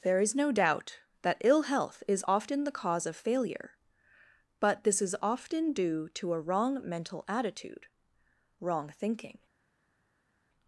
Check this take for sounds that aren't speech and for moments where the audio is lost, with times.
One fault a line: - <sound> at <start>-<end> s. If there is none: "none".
none